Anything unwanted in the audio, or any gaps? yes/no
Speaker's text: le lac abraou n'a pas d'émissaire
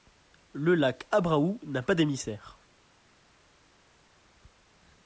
no